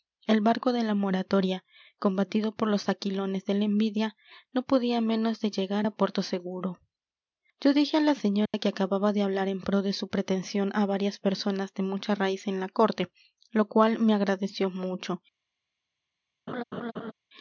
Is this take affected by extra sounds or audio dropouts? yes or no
yes